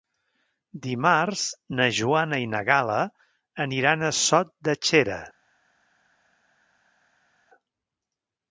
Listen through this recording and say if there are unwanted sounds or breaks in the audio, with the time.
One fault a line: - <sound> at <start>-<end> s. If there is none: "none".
none